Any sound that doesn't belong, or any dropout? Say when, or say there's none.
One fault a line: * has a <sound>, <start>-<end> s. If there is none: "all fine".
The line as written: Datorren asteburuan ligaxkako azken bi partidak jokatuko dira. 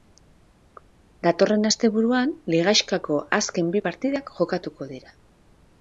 all fine